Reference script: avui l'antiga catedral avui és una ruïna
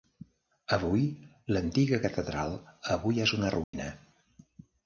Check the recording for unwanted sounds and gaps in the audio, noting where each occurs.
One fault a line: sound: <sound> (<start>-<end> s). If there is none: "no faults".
sound: dropout (3.6-3.7 s)